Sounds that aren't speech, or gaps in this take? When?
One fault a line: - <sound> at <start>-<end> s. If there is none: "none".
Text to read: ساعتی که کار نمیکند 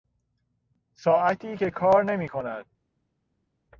none